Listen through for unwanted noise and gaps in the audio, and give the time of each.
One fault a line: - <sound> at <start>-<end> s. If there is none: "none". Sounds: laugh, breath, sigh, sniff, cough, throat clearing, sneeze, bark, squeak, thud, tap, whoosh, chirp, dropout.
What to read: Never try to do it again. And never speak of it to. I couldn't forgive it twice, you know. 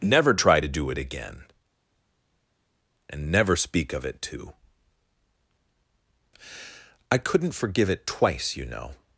none